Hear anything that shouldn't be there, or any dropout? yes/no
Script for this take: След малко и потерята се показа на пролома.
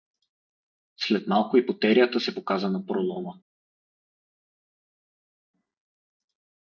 no